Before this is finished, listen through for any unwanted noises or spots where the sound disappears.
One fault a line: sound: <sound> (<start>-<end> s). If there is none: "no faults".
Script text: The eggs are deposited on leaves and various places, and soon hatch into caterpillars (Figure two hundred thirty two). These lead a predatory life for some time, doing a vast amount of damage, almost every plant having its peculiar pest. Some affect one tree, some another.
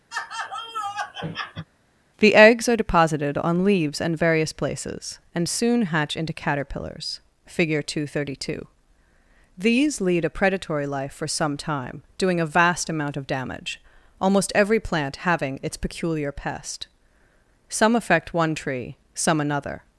sound: laugh (0.1-1.7 s)